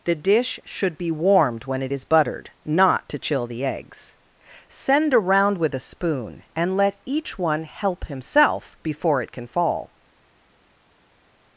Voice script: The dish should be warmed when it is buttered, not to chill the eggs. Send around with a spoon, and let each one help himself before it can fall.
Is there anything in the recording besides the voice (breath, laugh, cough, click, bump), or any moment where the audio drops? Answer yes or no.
no